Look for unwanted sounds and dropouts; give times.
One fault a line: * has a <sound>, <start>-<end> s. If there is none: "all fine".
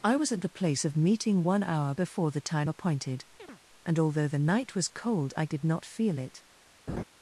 * has a chirp, 3.4-3.6 s
* has a laugh, 6.9-7.0 s